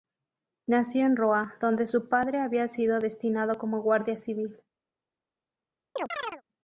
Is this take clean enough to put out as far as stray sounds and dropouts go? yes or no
no